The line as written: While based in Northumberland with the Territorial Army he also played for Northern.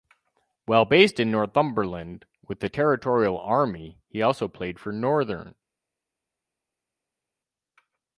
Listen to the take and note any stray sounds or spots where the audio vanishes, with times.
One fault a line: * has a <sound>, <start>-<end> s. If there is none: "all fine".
all fine